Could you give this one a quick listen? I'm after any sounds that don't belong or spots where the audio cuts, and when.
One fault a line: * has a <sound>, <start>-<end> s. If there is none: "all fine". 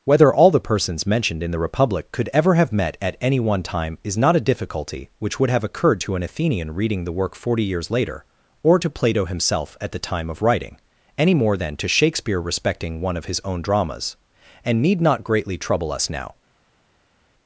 all fine